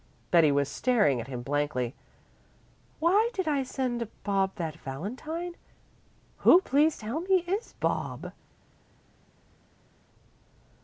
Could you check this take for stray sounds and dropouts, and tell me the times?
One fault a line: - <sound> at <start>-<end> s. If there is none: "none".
none